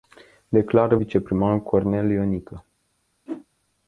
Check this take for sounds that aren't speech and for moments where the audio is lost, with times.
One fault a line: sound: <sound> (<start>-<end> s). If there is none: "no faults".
sound: whoosh (3.3-3.5 s)